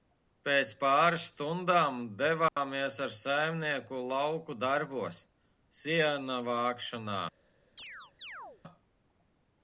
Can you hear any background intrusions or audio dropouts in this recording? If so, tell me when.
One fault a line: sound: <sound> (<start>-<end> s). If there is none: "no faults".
sound: dropout (2.5-2.6 s)
sound: chirp (7.8-8.6 s)